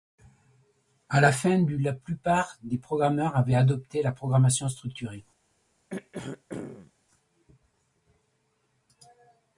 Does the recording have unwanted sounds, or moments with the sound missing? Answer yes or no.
yes